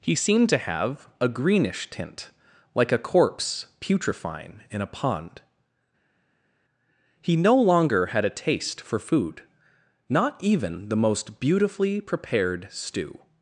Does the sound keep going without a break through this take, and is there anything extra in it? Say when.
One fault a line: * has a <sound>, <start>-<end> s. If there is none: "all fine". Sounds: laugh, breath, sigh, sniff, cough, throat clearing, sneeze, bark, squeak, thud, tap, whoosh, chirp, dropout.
all fine